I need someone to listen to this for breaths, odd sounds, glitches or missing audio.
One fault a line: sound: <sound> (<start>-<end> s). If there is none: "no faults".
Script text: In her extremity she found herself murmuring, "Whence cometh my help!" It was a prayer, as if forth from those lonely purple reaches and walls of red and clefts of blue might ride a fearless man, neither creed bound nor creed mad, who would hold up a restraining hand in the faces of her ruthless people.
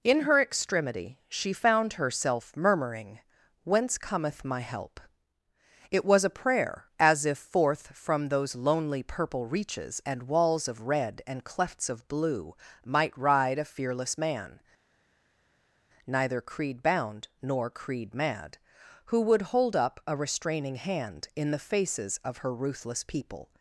no faults